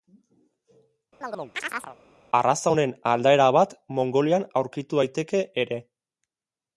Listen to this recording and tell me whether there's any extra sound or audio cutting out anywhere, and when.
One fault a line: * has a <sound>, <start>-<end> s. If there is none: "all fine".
* has a chirp, 1.2-2.0 s